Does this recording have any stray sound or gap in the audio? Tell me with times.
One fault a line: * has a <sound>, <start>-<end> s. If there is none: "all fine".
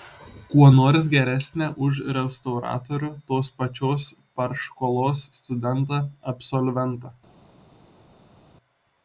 all fine